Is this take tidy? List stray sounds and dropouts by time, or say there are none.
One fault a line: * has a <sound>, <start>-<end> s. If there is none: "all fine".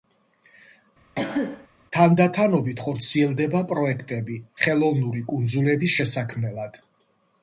* has a cough, 1.1-1.7 s